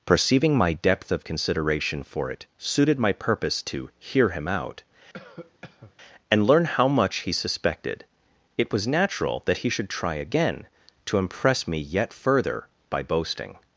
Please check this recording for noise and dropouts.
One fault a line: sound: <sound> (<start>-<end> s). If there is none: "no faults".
sound: cough (5.1-5.9 s)